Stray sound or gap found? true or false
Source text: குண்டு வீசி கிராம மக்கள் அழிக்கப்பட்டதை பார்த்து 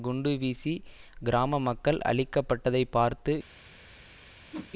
true